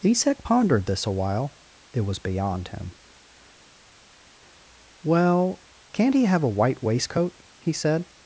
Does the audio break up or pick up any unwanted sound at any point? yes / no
no